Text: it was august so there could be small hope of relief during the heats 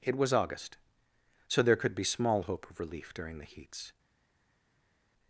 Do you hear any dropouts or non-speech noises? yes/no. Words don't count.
no